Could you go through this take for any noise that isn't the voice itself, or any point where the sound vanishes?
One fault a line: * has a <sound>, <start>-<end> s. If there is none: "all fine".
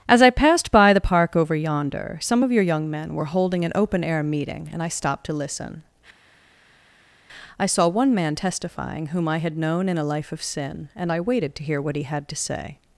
all fine